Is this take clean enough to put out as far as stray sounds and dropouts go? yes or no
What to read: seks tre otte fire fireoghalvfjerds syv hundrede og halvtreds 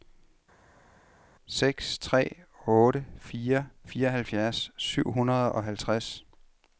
yes